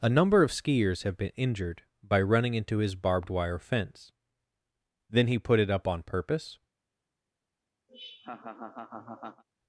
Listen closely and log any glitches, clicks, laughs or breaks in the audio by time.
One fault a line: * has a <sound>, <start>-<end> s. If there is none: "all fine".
* has a laugh, 7.9-9.4 s